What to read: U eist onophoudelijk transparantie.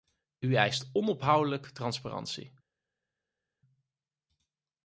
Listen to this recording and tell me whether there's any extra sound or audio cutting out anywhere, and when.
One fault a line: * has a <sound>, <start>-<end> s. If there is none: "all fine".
all fine